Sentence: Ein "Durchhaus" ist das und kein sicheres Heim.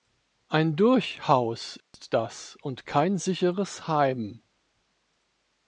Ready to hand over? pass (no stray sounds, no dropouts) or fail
fail